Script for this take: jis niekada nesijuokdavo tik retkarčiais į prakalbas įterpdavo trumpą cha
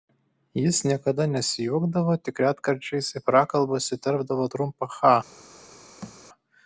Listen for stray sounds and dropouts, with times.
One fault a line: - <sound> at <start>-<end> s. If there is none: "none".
- thud at 6.0-6.2 s